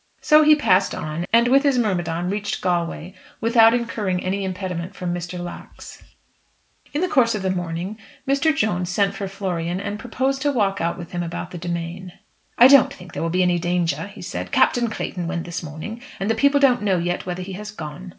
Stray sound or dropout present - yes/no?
no